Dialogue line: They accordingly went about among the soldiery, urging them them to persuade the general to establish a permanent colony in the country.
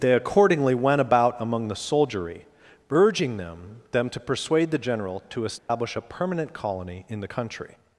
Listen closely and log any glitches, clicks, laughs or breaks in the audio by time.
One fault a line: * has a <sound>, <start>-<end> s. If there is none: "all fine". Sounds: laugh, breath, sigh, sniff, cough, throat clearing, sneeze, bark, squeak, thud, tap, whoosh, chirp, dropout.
* has a dropout, 5.6-5.7 s